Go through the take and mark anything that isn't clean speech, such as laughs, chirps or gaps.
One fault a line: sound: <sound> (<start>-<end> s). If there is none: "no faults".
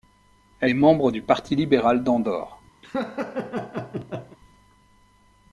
sound: laugh (2.8-4.4 s)